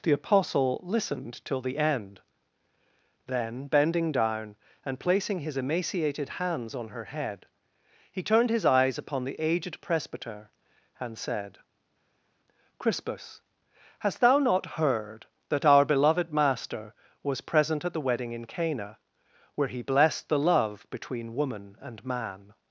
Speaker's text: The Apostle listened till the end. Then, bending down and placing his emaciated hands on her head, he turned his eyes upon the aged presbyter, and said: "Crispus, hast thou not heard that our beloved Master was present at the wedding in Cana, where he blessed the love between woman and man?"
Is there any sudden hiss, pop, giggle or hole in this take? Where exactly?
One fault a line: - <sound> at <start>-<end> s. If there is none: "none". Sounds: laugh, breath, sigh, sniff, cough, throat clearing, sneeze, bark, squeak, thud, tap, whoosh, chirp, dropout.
none